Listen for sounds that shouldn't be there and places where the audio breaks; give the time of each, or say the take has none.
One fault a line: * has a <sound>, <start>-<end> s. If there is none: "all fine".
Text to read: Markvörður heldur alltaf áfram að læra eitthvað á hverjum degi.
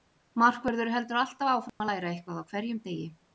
* has a dropout, 1.7-1.8 s